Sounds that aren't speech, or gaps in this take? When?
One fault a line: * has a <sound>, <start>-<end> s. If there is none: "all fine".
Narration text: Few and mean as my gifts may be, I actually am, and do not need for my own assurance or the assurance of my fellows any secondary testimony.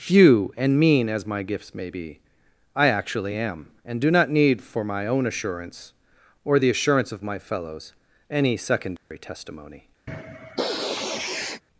* has a dropout, 9.0-9.1 s
* has a sniff, 10.1-11.6 s